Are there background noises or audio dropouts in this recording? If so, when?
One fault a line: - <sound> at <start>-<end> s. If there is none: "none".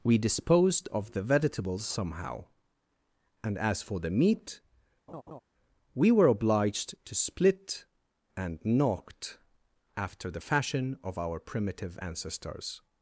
- laugh at 5.1-5.4 s